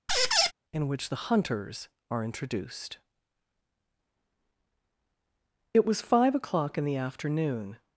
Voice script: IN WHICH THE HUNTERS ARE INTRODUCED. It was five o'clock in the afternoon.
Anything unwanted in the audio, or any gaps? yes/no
yes